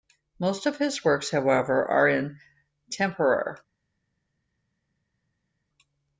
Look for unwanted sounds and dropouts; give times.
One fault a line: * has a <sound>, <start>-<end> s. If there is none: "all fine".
all fine